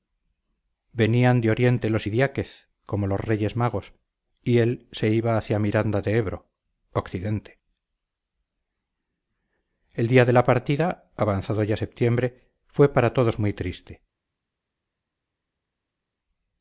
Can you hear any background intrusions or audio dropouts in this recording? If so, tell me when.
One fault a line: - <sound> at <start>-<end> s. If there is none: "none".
none